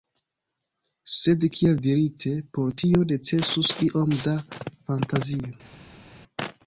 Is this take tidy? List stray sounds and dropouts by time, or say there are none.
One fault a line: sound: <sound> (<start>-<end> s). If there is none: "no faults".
no faults